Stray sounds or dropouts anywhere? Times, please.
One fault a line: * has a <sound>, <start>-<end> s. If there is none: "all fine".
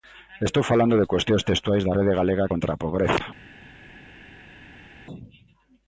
all fine